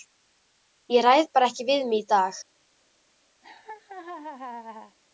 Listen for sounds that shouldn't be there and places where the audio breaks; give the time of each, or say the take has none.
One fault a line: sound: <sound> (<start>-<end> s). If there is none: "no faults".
sound: laugh (3.4-5.0 s)